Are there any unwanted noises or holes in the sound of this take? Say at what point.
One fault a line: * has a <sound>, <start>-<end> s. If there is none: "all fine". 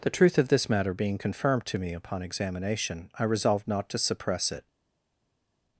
all fine